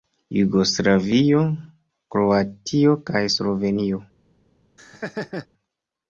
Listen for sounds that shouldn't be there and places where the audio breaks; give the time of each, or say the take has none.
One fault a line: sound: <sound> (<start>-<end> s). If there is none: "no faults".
sound: laugh (4.8-5.5 s)